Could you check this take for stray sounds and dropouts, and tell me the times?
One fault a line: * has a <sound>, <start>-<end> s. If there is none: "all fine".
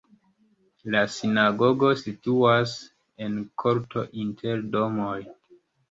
all fine